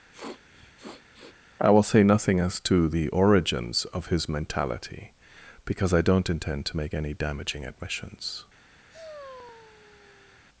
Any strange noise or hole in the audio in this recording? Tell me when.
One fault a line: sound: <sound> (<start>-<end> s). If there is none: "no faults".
sound: sniff (0.1-1.4 s)
sound: sigh (8.9-10.5 s)